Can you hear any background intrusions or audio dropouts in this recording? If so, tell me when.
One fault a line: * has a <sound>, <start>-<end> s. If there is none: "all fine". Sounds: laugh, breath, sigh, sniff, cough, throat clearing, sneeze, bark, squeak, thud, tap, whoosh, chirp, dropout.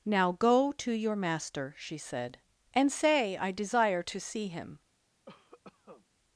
* has a cough, 5.3-6.1 s